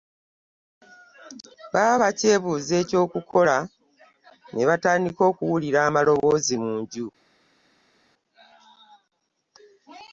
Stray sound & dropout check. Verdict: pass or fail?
pass